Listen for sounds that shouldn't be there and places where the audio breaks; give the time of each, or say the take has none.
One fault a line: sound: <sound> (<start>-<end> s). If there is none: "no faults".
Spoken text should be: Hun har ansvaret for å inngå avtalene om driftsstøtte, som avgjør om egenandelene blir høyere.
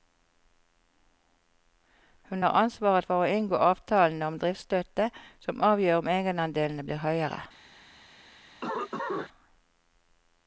sound: cough (8.6-9.3 s)